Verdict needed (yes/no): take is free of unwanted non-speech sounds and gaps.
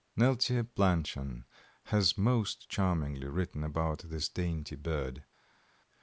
yes